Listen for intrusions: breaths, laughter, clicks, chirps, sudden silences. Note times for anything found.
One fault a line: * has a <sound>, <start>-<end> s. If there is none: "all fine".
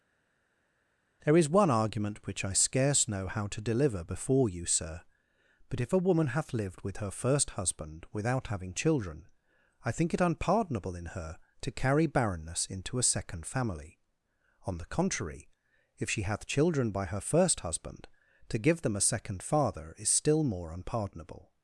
all fine